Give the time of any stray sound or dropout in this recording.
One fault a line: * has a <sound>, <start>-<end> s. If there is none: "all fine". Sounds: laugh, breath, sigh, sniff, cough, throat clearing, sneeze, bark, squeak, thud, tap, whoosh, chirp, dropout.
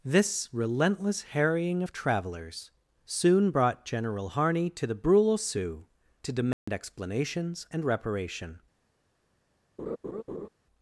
* has a dropout, 6.5-6.7 s
* has a laugh, 9.8-10.5 s